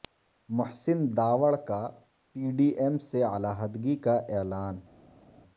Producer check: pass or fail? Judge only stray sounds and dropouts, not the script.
pass